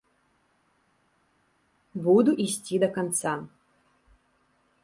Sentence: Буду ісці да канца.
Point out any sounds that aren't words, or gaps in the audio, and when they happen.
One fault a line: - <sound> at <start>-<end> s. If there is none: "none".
none